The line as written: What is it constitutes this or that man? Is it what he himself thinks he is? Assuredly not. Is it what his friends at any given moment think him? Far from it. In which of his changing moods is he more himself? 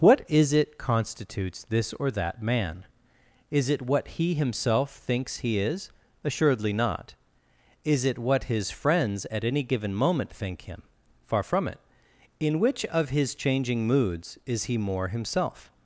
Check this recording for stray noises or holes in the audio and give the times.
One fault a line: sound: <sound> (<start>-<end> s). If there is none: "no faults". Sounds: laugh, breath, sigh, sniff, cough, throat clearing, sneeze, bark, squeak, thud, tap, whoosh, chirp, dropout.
no faults